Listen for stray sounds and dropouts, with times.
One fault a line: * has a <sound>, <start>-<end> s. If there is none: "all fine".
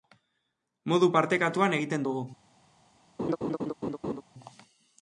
* has a laugh, 3.2-4.2 s